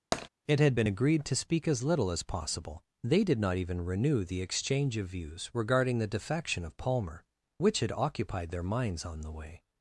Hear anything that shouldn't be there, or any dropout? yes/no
yes